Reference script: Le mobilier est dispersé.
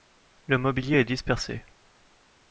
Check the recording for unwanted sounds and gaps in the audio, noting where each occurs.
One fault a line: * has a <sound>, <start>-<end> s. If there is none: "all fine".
all fine